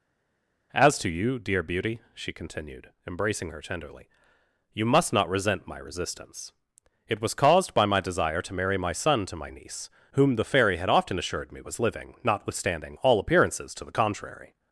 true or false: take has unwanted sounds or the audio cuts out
false